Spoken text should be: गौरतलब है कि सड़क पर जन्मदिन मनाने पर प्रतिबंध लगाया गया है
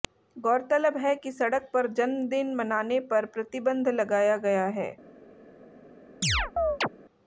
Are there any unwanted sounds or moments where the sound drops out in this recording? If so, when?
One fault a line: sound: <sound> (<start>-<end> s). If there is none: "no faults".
sound: chirp (6.2-6.9 s)